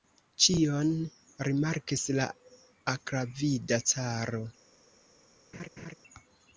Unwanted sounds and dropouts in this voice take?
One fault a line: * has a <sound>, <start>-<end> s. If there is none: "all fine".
* has a laugh, 5.5-5.9 s